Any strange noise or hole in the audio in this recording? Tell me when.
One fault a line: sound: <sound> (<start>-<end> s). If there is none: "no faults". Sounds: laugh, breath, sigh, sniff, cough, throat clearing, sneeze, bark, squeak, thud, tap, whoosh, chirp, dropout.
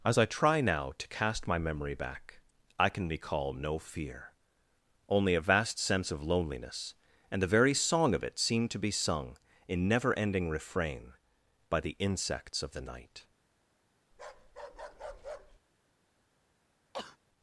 sound: bark (14.1-15.6 s)
sound: sneeze (16.9-17.2 s)